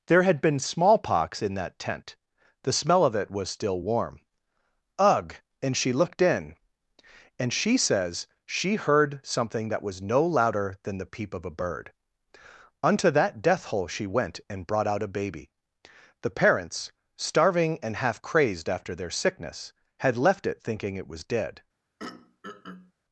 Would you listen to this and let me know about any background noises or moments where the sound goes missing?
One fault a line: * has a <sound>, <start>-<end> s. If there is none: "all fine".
* has a throat clearing, 22.0-22.9 s